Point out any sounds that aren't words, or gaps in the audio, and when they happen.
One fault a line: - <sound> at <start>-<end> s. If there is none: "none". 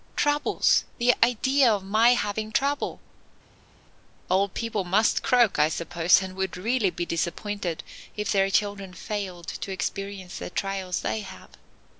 none